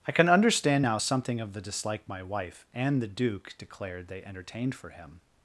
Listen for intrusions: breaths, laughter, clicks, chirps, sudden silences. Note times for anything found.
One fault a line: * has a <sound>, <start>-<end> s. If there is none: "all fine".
all fine